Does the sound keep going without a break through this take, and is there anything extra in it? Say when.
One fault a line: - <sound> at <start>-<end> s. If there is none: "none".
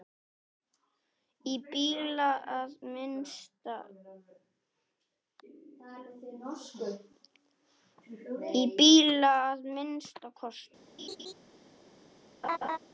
- laugh at 11.0-11.3 s
- laugh at 12.4-12.8 s